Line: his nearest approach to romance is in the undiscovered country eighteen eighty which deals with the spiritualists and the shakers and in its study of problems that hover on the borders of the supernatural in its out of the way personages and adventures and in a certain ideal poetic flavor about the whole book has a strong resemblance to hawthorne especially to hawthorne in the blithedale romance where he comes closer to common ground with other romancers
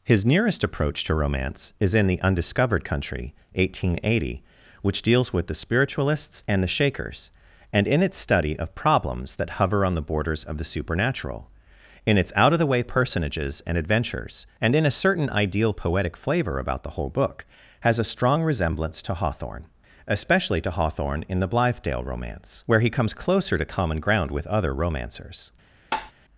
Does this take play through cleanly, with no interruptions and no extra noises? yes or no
no